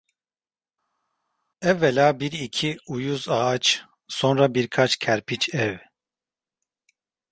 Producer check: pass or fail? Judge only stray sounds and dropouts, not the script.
pass